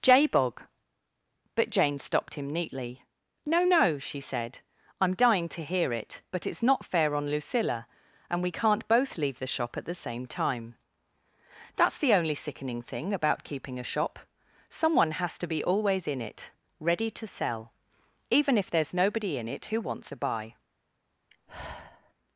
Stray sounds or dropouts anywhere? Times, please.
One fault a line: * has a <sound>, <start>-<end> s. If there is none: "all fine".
* has a sigh, 21.3-22.1 s